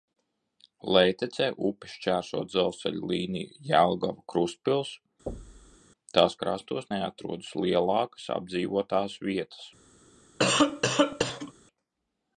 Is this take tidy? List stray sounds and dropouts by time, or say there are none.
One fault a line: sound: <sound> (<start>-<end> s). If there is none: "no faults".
sound: thud (5.3-5.8 s)
sound: cough (10.4-11.5 s)